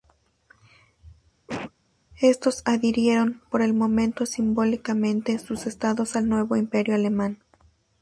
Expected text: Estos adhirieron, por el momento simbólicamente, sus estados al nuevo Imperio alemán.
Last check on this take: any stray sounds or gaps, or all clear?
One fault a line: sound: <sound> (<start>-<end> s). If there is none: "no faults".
sound: cough (1.5-1.7 s)